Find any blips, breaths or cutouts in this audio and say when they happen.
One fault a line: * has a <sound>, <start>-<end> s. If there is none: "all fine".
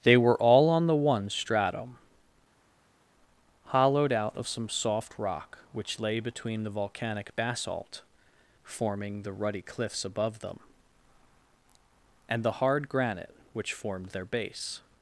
all fine